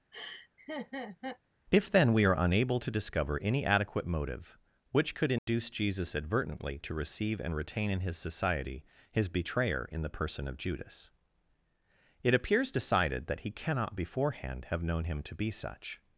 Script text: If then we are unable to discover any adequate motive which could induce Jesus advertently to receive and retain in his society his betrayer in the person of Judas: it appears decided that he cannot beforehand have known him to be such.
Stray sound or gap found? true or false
true